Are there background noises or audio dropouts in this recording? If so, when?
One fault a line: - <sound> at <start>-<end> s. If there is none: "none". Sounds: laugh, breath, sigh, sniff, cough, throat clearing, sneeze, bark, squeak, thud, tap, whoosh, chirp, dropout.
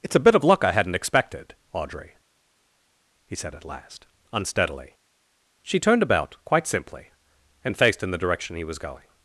none